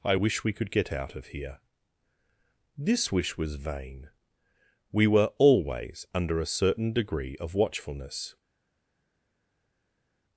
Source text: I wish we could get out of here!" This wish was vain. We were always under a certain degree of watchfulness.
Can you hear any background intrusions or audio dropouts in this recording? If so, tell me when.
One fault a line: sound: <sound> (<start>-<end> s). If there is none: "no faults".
no faults